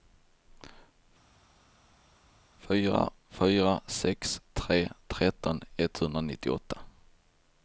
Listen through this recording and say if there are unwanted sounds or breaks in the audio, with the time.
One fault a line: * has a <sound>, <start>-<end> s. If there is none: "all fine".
all fine